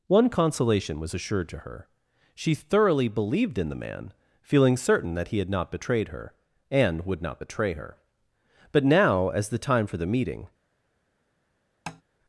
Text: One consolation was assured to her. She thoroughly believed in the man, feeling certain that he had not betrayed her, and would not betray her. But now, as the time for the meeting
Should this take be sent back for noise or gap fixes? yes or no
yes